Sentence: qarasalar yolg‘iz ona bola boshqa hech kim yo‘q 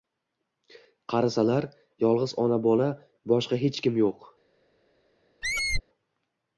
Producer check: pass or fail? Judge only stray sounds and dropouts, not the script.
fail